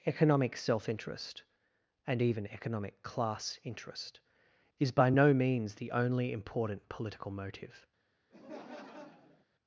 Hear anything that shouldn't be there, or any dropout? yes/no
yes